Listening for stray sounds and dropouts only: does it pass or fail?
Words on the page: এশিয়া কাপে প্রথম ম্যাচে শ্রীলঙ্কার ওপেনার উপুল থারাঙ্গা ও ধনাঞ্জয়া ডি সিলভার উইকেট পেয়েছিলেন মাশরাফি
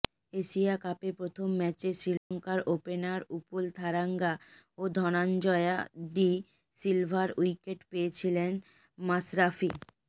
fail